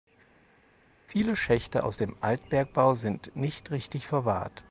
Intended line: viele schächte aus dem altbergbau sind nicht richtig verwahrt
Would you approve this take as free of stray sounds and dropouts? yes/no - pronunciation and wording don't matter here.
yes